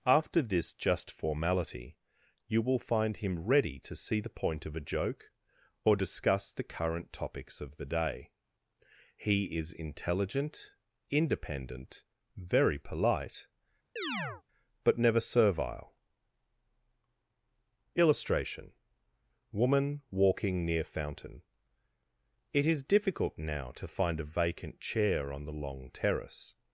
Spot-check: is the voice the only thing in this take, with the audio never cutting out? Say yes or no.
no